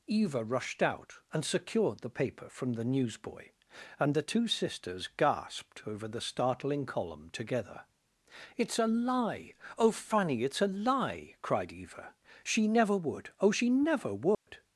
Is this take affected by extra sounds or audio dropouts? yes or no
yes